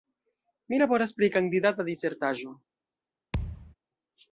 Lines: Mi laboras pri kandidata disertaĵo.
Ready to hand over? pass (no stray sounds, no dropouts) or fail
fail